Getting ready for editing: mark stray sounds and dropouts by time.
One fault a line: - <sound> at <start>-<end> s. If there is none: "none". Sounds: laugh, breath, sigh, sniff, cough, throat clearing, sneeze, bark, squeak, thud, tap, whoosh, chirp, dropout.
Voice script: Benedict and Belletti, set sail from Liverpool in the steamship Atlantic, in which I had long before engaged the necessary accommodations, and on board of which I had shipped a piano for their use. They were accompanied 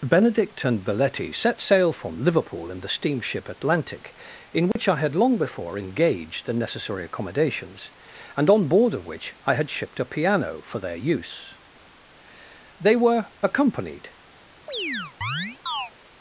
- dropout at 4.7-4.8 s
- chirp at 14.7-15.9 s